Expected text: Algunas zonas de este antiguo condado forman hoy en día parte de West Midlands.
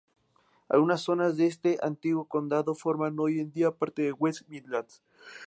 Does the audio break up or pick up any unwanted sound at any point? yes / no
no